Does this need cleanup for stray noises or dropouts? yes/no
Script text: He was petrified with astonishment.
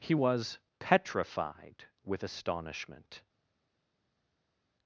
no